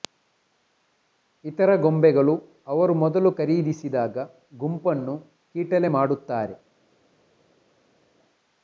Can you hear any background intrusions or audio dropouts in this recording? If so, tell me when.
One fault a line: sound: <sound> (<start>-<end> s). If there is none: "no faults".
no faults